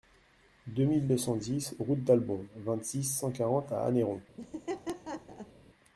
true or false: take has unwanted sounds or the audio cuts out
true